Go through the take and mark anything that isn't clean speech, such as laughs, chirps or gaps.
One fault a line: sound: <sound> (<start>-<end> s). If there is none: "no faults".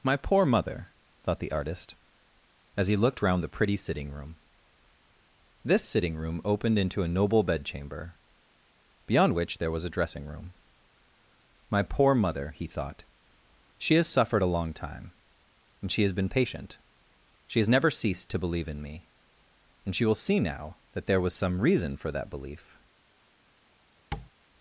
sound: tap (24.1-24.3 s)